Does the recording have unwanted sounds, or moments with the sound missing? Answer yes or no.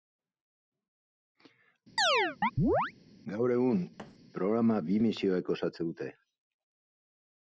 yes